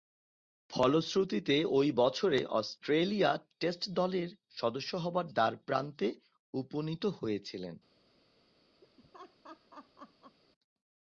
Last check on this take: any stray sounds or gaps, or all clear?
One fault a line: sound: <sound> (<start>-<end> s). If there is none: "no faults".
sound: laugh (8.8-10.4 s)